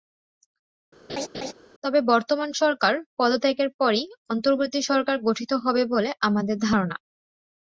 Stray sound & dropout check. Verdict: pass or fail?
fail